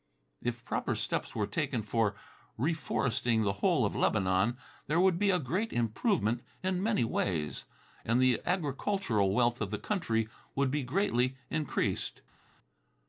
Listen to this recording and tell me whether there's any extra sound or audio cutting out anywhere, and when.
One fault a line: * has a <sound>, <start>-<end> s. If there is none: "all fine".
all fine